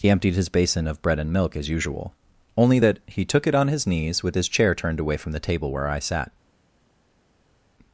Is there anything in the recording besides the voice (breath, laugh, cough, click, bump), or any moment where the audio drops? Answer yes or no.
no